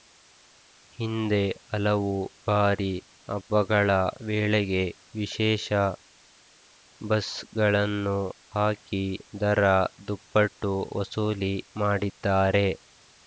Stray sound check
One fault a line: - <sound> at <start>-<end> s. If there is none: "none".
none